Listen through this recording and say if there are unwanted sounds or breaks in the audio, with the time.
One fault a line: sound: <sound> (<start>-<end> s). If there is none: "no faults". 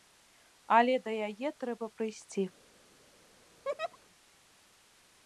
sound: laugh (3.6-4.0 s)